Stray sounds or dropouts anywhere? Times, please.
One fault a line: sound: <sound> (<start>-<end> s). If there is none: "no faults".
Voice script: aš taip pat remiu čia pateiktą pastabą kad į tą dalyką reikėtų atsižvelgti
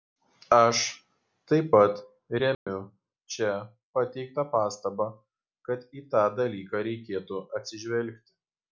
sound: dropout (2.5-2.7 s)